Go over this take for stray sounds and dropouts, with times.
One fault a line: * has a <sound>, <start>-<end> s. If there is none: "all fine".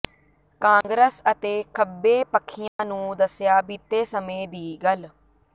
* has a dropout, 0.8-0.8 s
* has a dropout, 2.7-2.8 s